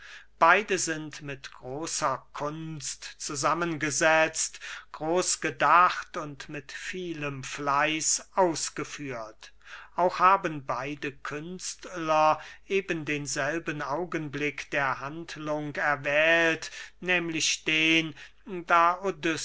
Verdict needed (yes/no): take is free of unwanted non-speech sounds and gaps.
yes